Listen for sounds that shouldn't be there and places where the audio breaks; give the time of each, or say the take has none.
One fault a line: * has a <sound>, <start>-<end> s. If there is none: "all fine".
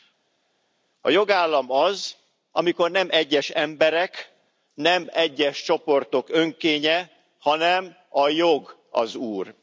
all fine